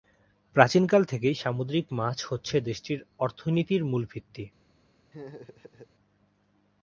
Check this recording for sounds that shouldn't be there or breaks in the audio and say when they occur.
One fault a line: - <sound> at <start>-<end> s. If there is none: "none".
- laugh at 5.1-5.9 s